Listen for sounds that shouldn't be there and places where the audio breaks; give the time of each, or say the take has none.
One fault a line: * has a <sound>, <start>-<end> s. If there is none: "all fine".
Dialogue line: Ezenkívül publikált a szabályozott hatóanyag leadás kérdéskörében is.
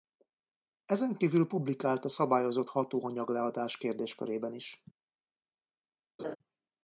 * has a laugh, 6.2-6.4 s